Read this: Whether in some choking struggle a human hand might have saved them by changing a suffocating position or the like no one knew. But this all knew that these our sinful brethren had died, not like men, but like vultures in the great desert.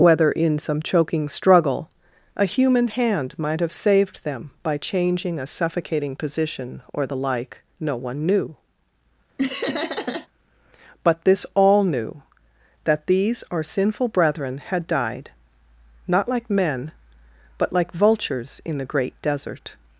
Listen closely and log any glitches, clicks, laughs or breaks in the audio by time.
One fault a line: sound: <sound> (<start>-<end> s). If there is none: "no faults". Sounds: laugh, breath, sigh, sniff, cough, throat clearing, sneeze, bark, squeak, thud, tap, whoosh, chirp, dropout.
sound: laugh (9.4-10.3 s)